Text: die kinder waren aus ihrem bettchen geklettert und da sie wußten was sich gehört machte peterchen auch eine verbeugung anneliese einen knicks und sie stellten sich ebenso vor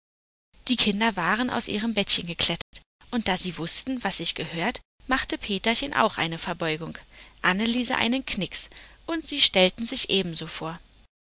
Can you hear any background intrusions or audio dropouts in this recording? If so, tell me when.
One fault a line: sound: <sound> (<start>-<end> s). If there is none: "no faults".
sound: dropout (2.6-2.7 s)